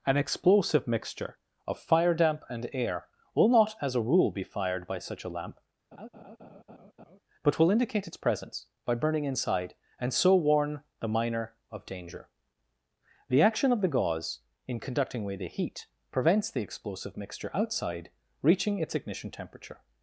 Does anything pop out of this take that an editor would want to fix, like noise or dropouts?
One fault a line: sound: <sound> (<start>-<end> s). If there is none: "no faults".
sound: laugh (5.9-7.2 s)